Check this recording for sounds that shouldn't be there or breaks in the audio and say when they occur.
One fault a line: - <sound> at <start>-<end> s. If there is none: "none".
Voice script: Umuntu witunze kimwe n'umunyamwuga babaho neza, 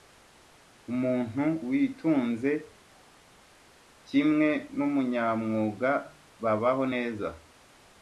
none